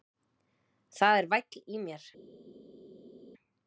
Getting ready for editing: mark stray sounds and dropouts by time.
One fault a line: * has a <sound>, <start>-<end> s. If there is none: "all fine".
all fine